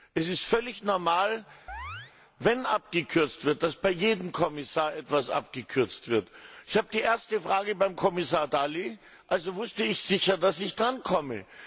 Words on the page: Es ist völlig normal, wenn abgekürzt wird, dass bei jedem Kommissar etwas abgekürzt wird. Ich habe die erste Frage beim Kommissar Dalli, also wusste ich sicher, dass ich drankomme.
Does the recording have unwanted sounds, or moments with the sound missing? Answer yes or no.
yes